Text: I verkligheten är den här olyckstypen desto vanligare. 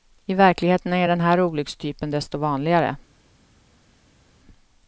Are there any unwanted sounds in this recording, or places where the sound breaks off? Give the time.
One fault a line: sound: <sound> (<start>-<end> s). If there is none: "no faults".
no faults